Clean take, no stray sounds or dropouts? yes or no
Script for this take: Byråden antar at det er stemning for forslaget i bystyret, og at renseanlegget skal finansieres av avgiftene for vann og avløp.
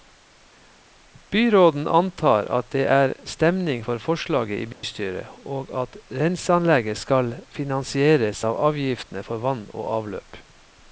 no